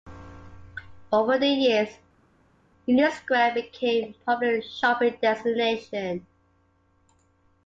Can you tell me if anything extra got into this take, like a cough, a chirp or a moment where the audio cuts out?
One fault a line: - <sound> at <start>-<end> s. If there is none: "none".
none